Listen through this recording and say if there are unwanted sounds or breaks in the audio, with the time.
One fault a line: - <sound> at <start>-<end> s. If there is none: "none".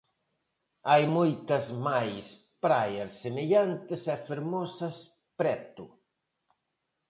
none